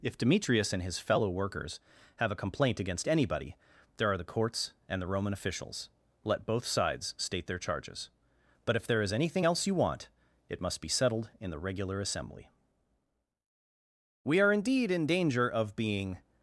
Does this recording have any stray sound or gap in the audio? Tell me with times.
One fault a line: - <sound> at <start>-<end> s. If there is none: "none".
none